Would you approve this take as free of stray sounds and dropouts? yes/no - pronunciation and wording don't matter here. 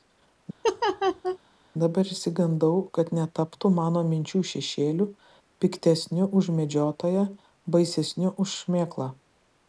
no